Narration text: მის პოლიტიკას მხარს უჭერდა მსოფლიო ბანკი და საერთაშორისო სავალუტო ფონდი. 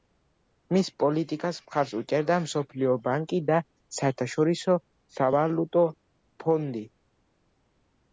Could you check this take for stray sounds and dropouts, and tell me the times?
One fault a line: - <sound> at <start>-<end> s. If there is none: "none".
none